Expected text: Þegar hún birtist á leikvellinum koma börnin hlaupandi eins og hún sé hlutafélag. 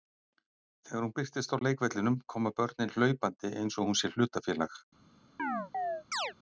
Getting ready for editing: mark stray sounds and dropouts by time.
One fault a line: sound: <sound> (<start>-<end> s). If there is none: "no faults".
sound: chirp (5.4-6.3 s)